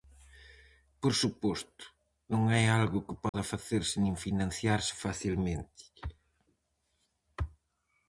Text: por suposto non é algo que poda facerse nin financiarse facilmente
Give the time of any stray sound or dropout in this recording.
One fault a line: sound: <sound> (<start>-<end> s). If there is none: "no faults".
sound: dropout (3.3-3.3 s)